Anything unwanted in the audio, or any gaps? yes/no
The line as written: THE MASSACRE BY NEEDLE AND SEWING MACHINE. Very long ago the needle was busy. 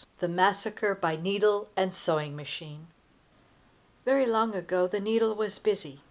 no